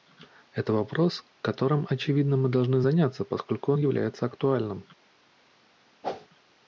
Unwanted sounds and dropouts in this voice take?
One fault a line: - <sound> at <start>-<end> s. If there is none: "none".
- whoosh at 6.0-6.3 s